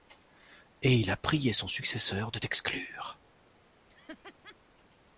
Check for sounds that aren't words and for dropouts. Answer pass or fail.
fail